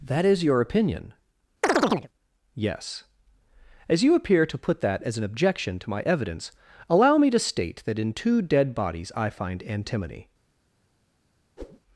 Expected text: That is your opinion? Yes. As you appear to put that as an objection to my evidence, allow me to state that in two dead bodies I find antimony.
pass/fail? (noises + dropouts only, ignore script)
fail